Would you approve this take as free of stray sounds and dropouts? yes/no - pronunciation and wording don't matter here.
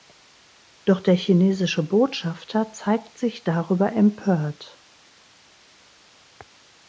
yes